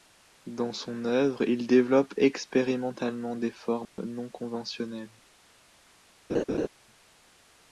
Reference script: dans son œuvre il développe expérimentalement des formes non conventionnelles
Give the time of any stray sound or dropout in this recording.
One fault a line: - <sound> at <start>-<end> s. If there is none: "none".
- dropout at 3.8-4.0 s
- laugh at 6.3-6.7 s